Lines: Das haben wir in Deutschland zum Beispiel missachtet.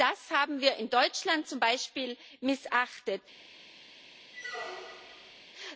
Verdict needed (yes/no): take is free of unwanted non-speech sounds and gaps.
no